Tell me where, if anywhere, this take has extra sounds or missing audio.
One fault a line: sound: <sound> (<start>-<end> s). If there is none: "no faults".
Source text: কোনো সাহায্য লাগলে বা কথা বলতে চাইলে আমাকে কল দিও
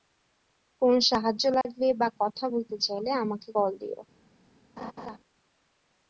sound: dropout (1.6-1.7 s)
sound: laugh (4.8-5.2 s)